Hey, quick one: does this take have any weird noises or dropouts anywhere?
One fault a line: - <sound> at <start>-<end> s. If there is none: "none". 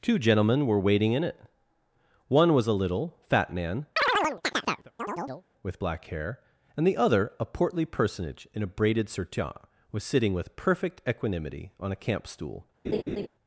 - chirp at 4.0-5.5 s
- laugh at 12.8-13.3 s